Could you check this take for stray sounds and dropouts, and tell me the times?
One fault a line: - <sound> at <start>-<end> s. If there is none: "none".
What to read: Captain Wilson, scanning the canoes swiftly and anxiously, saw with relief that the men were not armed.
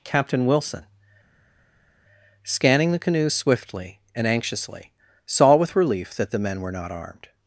none